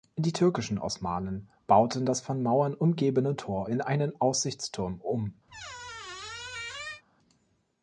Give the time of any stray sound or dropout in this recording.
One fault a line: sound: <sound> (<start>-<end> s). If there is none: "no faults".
sound: squeak (5.5-7.0 s)